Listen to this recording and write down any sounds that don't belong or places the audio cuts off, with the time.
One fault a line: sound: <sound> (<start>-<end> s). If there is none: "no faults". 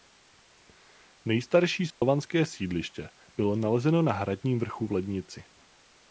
sound: dropout (1.9-2.0 s)